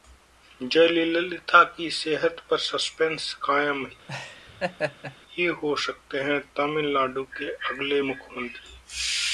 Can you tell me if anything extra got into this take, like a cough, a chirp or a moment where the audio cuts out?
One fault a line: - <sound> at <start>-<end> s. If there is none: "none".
- laugh at 4.1-5.2 s